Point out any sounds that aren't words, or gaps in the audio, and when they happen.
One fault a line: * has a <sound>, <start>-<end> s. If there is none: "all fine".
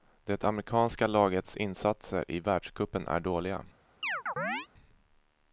* has a chirp, 4.0-4.7 s